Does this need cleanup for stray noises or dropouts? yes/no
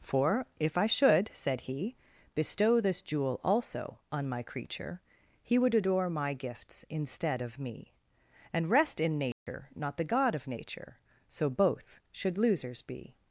yes